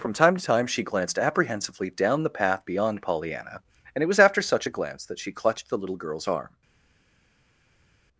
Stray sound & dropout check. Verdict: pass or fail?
pass